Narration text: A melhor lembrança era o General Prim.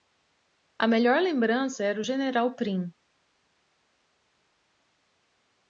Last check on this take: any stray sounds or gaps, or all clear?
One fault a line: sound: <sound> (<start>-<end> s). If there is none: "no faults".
no faults